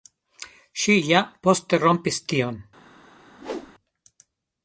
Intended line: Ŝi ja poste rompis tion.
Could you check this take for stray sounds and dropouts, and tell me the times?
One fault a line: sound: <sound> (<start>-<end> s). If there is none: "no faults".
sound: whoosh (3.4-3.7 s)